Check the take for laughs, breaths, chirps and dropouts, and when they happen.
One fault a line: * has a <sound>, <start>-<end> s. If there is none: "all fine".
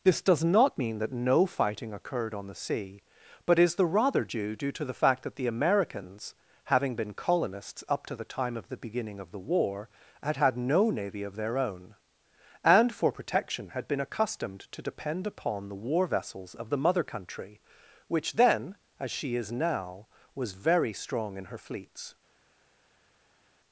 all fine